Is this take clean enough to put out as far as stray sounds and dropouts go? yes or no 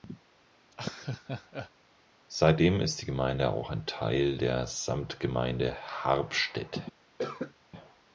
no